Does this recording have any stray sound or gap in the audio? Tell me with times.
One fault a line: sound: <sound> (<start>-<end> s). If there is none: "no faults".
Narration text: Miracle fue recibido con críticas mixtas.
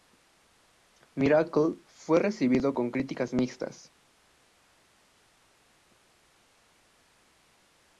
no faults